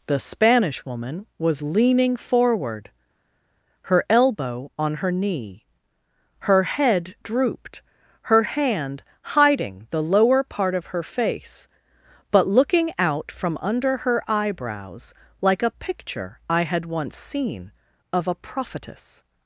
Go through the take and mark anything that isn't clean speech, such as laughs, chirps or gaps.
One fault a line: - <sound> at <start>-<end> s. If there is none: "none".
none